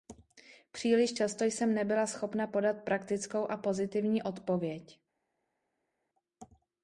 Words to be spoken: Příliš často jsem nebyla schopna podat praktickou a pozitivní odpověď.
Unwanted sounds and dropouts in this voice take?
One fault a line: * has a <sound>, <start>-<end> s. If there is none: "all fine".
all fine